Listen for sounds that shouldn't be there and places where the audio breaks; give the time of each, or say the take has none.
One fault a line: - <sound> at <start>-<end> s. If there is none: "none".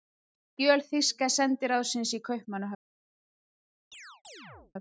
- chirp at 3.9-4.7 s